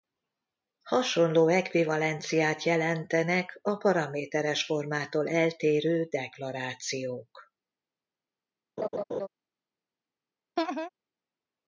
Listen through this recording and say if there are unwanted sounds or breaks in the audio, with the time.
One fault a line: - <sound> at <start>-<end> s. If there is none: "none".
- laugh at 8.8-9.3 s
- laugh at 10.6-10.9 s